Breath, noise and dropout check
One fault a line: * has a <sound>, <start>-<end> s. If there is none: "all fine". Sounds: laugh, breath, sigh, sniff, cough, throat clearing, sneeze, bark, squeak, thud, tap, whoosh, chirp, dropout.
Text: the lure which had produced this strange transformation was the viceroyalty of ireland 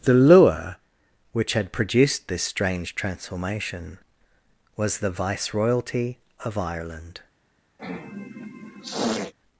* has a sniff, 7.8-9.3 s